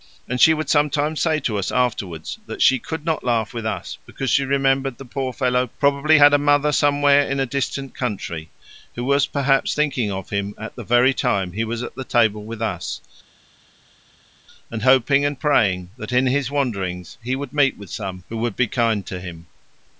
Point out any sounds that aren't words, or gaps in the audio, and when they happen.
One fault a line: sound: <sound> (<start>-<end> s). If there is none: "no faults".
no faults